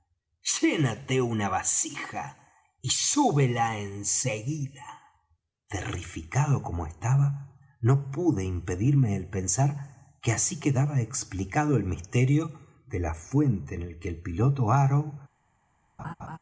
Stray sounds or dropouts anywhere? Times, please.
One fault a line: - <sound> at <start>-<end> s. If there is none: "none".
- laugh at 16.0-16.4 s